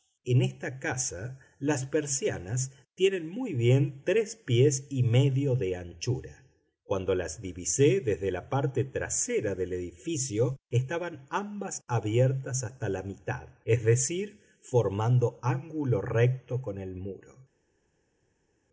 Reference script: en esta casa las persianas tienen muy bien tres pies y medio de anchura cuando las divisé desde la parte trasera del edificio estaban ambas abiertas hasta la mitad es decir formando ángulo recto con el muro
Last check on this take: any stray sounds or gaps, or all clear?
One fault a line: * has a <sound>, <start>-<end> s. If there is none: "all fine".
all fine